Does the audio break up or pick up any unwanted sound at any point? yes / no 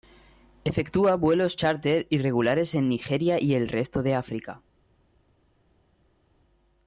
no